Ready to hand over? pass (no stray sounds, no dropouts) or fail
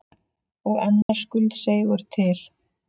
fail